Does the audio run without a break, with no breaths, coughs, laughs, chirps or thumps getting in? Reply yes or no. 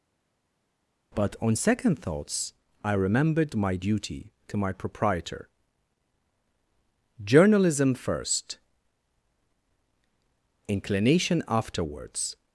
yes